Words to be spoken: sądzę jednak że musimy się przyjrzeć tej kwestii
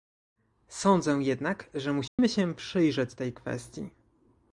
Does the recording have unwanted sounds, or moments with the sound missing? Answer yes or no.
yes